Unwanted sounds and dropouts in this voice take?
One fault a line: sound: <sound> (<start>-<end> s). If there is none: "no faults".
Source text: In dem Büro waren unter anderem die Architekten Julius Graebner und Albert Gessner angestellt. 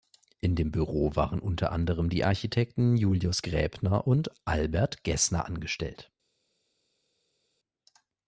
no faults